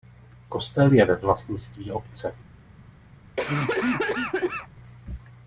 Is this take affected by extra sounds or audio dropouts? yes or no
yes